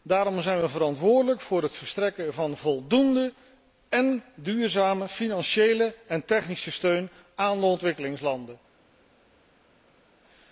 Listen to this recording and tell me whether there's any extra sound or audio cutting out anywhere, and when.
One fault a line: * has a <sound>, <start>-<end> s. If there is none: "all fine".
all fine